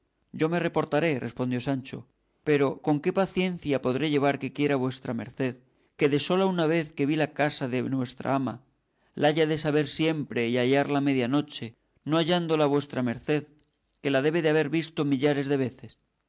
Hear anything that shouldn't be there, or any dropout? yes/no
no